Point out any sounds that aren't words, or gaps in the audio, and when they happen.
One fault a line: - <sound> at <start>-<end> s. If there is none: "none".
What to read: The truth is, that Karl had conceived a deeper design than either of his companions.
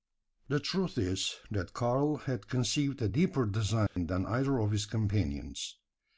- dropout at 3.9-4.0 s